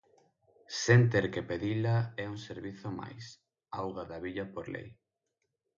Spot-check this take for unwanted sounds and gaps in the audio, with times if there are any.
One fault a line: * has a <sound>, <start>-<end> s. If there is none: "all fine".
all fine